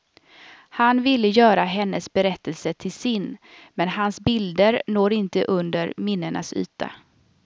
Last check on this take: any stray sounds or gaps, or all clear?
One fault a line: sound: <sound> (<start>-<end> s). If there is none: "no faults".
no faults